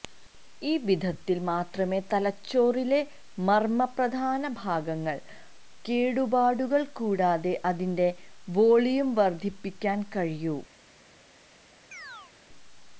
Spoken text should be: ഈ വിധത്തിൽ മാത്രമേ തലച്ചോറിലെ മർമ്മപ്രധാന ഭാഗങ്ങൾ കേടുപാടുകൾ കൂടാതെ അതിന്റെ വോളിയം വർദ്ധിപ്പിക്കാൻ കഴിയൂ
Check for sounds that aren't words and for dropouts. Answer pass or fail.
fail